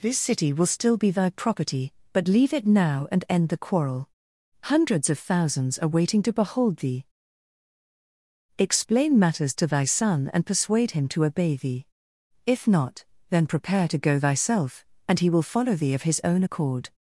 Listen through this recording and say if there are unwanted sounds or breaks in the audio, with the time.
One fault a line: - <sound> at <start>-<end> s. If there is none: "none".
none